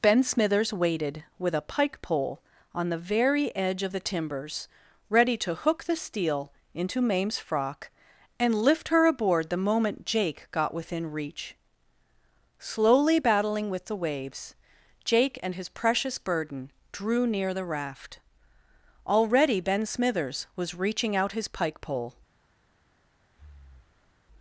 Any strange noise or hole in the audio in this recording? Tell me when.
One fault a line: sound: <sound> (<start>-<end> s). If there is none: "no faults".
sound: breath (23.3-24.2 s)